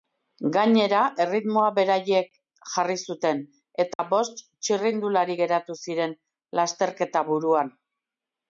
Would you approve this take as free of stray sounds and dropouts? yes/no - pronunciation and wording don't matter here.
no